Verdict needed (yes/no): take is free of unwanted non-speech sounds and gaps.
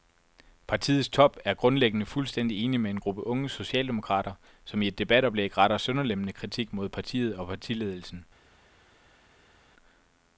yes